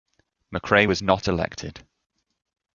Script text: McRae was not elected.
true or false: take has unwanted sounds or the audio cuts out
false